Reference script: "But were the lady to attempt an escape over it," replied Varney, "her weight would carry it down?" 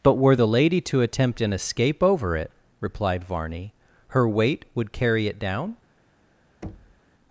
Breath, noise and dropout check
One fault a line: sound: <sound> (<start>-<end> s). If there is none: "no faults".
sound: thud (6.6-7.0 s)